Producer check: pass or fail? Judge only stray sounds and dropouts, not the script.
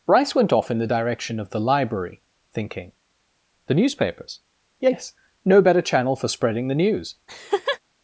fail